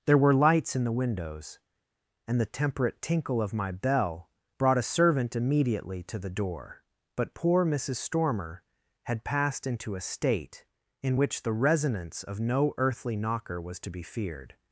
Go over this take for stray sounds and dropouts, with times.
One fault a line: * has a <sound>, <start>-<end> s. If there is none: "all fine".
all fine